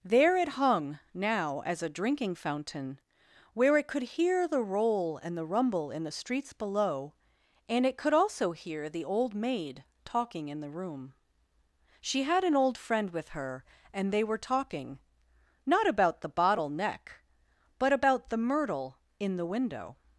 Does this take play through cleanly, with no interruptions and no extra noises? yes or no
yes